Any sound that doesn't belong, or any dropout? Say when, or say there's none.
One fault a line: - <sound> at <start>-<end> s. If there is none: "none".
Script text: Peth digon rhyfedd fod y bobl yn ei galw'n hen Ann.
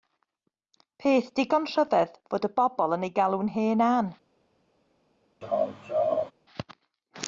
- laugh at 5.4-6.3 s